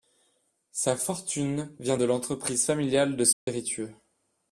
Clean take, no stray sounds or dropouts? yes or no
no